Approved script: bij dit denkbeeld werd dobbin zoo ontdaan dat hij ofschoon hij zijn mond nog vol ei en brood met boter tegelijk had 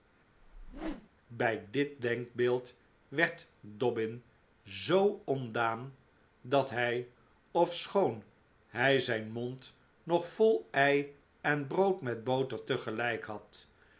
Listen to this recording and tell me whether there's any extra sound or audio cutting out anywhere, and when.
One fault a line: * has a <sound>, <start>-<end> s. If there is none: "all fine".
* has a whoosh, 0.4-1.1 s